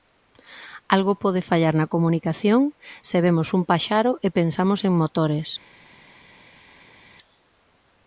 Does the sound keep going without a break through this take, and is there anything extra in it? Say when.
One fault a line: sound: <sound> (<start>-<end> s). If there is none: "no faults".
no faults